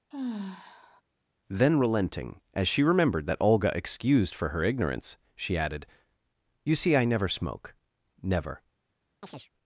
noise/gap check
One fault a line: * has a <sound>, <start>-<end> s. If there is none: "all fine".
* has a sigh, 0.1-1.0 s
* has a chirp, 9.2-9.5 s